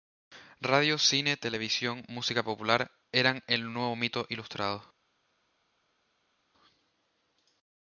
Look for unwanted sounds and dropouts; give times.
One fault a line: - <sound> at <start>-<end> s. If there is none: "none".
none